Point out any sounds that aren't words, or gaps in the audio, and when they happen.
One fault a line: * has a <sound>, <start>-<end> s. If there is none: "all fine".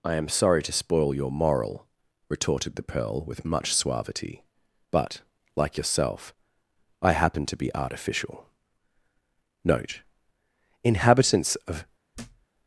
* has a thud, 12.1-12.5 s